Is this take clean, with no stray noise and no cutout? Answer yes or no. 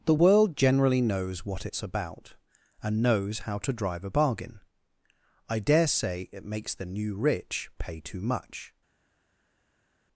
yes